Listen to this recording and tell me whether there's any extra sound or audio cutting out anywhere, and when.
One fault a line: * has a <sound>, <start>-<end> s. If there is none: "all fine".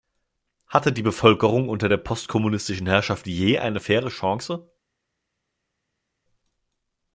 all fine